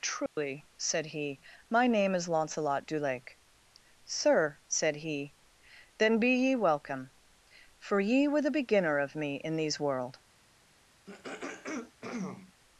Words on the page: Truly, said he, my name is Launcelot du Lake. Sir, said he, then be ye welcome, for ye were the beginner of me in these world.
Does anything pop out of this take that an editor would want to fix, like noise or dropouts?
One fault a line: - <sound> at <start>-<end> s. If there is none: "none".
- dropout at 0.3-0.4 s
- throat clearing at 11.1-12.5 s